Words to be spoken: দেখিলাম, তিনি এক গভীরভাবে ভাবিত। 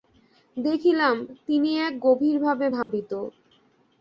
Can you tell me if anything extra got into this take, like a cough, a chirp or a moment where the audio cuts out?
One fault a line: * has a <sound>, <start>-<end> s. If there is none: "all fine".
* has a dropout, 2.8-2.9 s